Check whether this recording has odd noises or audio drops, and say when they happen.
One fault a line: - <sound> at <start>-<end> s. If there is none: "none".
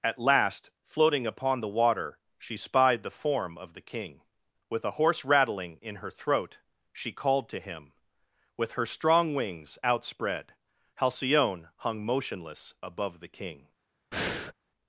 - breath at 14.1-14.5 s